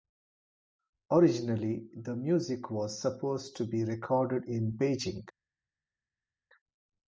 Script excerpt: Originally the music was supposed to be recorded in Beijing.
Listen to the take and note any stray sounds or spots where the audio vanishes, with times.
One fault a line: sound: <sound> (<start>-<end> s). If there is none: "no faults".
no faults